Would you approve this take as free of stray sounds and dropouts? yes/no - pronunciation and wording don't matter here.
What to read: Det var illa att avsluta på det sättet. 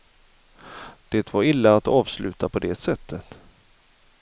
yes